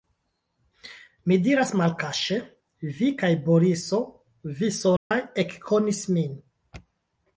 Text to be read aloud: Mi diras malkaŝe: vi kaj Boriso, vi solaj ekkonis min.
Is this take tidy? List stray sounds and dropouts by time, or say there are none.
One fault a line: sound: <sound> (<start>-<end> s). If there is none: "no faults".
sound: dropout (5.0-5.1 s)